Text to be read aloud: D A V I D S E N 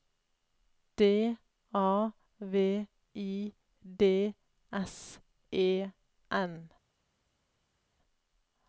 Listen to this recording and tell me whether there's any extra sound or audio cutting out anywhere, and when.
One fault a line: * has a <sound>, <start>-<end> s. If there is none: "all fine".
all fine